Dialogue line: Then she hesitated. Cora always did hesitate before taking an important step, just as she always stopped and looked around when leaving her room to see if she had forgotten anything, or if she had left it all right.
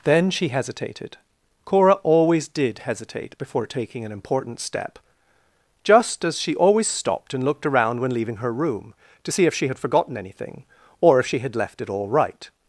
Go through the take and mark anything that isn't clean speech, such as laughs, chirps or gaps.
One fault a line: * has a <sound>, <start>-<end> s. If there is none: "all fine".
all fine